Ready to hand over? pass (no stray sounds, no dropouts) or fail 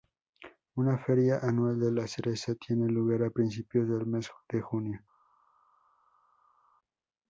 pass